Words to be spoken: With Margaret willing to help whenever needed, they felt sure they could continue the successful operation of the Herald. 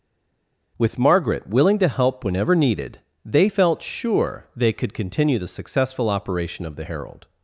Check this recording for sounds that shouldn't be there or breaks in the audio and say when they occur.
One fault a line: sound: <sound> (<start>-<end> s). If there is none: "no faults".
no faults